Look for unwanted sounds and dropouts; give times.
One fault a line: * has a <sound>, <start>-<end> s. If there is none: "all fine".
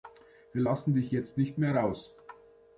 all fine